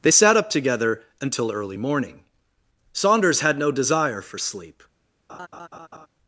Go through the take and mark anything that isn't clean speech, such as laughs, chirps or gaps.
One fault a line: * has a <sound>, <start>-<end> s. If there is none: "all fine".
* has a laugh, 5.3-6.1 s